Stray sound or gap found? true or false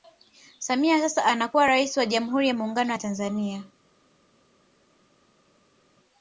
false